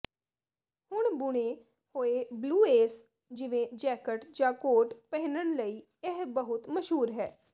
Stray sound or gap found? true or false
false